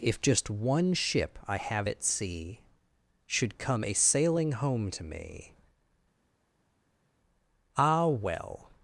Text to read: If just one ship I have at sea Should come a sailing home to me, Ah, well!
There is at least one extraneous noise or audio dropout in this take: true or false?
false